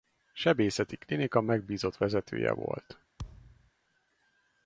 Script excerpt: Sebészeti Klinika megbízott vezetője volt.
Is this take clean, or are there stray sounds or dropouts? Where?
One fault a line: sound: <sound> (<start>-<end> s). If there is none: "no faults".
sound: thud (3.2-3.7 s)